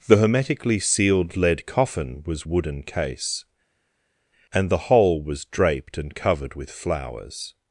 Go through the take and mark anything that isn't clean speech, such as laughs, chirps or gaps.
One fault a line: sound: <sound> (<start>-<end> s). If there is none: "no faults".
no faults